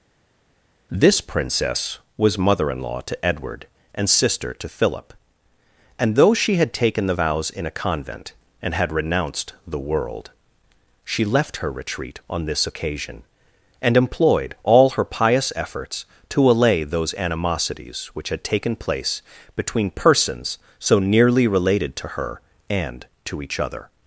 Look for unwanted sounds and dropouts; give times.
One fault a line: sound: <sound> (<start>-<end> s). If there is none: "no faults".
no faults